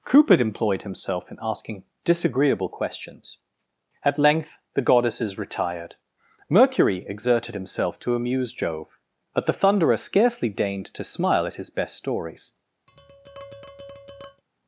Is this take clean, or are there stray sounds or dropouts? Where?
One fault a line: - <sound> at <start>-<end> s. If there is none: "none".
- tap at 12.9-14.4 s